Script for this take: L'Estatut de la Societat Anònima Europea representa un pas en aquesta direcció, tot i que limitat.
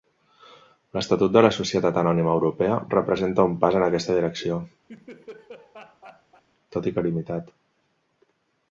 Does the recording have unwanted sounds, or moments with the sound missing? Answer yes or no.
yes